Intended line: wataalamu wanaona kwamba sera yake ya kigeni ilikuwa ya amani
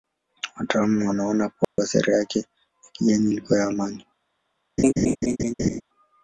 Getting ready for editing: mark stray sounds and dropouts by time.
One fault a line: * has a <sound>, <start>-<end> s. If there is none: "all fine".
* has a dropout, 1.6-1.8 s
* has a laugh, 4.8-5.8 s